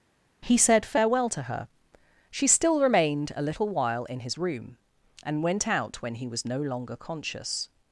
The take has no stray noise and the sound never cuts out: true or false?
true